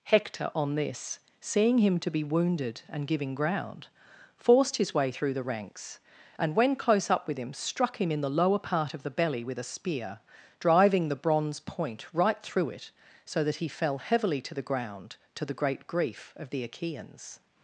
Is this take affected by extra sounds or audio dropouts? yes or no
no